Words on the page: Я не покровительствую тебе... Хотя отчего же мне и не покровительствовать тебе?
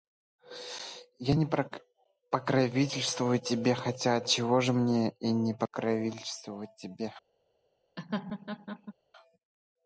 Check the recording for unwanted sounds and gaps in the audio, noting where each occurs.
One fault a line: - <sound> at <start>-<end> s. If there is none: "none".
- laugh at 8.0-8.9 s